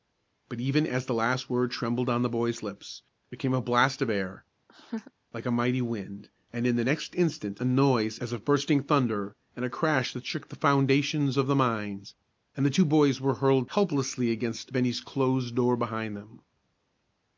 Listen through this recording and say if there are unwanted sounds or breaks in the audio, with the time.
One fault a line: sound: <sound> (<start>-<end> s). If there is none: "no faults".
sound: laugh (4.7-5.1 s)